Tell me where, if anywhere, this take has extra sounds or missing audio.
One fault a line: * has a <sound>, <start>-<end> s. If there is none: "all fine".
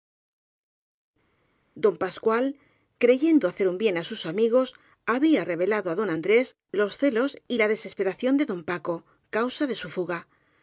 all fine